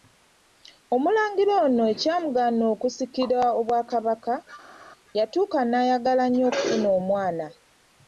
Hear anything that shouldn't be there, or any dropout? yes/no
no